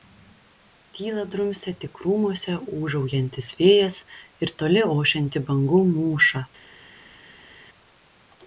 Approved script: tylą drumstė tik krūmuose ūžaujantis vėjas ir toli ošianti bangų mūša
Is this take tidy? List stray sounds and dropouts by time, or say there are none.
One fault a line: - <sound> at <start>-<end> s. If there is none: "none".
none